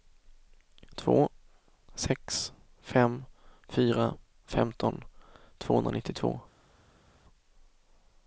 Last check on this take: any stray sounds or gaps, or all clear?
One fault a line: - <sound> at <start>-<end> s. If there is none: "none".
none